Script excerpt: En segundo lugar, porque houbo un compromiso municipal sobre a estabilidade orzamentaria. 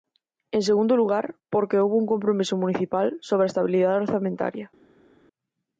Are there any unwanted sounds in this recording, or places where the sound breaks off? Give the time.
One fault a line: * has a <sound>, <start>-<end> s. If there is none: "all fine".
all fine